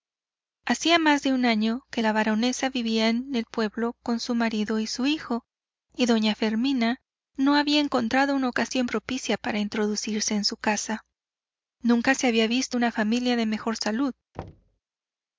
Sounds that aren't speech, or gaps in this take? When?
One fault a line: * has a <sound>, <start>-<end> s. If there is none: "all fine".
* has a thud, 14.3-14.8 s